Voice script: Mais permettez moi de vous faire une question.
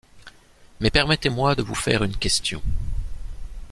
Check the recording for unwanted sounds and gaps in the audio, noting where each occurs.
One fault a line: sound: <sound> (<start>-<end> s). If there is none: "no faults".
no faults